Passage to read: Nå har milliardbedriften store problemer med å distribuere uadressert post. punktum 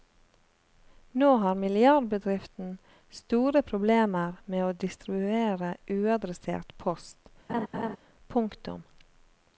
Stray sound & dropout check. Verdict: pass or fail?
fail